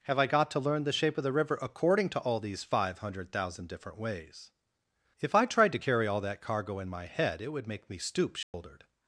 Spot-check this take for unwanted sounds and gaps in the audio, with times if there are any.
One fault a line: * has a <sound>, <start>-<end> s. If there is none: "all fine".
* has a dropout, 8.4-8.5 s